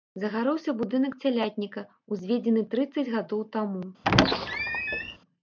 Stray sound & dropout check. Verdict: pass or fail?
fail